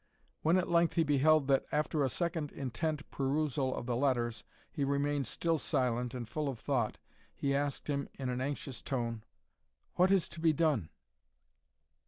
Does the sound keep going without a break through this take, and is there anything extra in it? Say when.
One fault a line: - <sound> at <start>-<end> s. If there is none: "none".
none